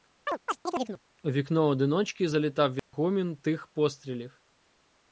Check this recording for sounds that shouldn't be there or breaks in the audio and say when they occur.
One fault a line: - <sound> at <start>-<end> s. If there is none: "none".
- chirp at 0.3-1.0 s
- dropout at 2.8-2.9 s